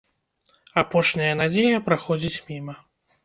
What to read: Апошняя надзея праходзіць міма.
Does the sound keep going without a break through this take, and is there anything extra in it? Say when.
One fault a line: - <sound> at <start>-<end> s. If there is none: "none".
none